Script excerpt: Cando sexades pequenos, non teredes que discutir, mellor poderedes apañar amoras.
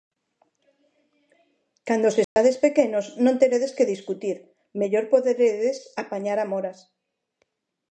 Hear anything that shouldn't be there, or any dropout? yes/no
yes